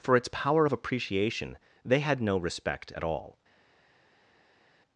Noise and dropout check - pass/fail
pass